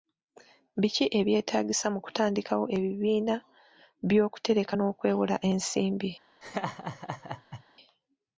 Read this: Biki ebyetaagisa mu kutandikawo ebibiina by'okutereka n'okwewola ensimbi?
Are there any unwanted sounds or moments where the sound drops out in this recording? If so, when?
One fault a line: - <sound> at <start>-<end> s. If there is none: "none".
- laugh at 6.4-7.6 s